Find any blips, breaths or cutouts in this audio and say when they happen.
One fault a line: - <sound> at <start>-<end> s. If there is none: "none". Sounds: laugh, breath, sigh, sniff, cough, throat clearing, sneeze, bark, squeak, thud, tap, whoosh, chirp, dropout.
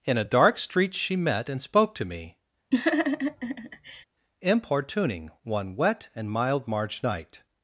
- laugh at 2.7-4.0 s